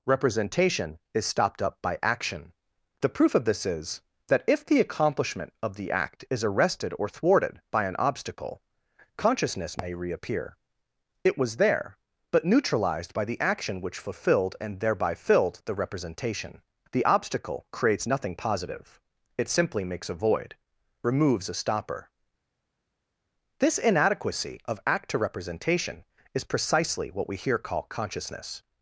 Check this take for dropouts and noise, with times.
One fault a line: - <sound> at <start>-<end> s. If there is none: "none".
none